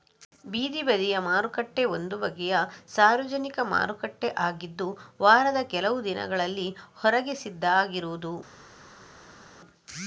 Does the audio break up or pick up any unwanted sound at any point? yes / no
no